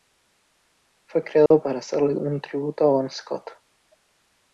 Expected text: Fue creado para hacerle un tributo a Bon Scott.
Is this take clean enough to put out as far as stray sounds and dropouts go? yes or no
no